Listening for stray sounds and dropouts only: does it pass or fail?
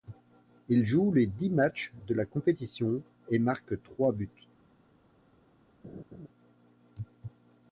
fail